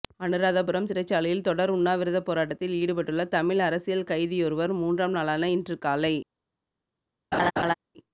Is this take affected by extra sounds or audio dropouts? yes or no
yes